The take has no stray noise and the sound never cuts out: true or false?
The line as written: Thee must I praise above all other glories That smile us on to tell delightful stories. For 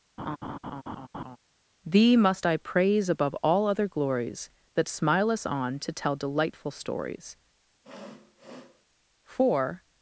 false